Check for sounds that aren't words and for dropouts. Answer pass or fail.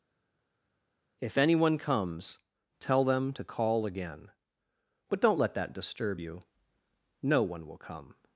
pass